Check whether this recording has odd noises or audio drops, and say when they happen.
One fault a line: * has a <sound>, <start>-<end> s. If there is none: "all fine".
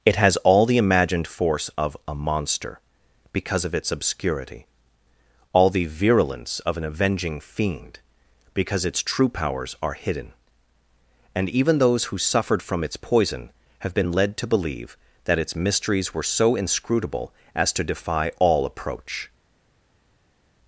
all fine